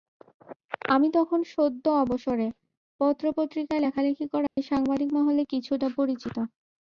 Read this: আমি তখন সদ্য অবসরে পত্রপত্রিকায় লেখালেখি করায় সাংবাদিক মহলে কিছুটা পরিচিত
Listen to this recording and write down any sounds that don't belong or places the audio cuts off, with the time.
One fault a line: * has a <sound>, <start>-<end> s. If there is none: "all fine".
* has a dropout, 4.5-4.6 s